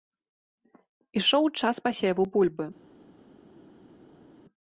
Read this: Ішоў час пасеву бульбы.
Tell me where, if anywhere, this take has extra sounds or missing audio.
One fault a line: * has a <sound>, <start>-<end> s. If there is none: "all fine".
all fine